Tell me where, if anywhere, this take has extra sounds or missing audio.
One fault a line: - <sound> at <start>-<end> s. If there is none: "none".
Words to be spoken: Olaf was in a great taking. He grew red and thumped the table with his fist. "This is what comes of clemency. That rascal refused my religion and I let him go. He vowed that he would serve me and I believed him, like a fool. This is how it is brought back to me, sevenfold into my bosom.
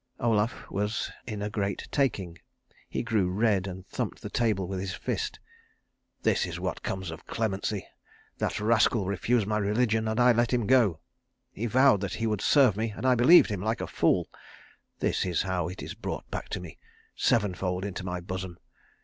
none